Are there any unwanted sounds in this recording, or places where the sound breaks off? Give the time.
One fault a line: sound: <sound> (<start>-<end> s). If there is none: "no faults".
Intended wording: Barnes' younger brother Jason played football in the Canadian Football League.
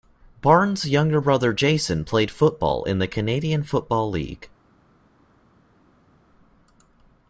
no faults